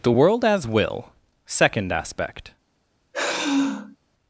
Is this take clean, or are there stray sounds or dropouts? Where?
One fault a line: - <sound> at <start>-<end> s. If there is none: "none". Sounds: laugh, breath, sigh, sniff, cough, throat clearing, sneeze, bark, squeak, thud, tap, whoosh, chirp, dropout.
- sigh at 3.1-4.0 s